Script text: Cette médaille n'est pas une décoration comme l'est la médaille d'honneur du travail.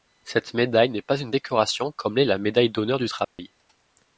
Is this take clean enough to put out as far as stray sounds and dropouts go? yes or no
no